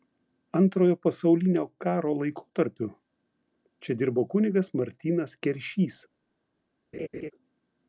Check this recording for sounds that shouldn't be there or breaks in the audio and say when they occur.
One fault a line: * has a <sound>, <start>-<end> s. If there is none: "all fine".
* has a laugh, 6.9-7.3 s